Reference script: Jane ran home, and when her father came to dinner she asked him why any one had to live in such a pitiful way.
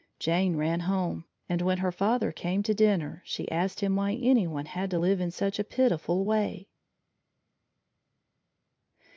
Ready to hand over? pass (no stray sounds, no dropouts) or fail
pass